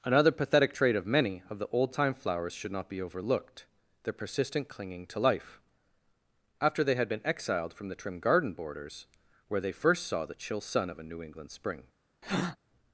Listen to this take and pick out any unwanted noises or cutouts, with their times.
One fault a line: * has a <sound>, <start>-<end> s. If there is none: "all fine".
* has a breath, 12.2-12.6 s